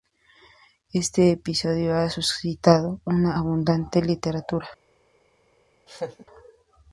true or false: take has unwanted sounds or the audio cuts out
true